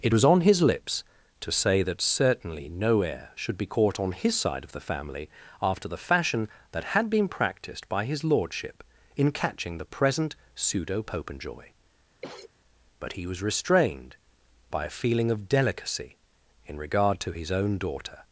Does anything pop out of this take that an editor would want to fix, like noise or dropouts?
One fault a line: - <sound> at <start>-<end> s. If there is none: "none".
- cough at 12.2-12.5 s